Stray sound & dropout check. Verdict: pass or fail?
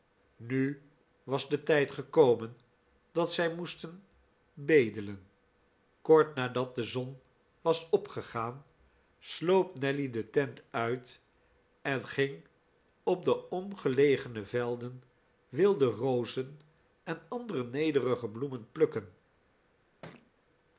fail